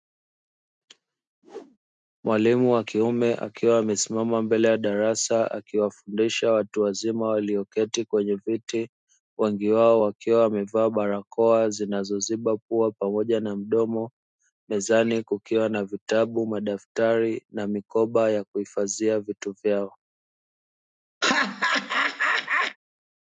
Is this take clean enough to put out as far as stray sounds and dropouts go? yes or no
no